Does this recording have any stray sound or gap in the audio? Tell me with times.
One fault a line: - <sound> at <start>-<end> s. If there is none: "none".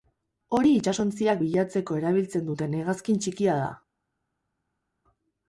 none